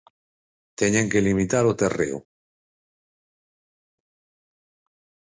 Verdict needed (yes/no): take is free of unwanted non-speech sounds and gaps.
yes